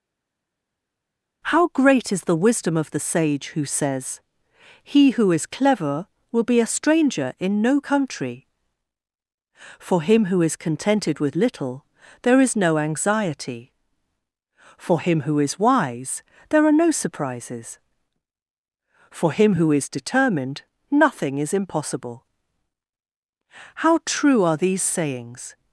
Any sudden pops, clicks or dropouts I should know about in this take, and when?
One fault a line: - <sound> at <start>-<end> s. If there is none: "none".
none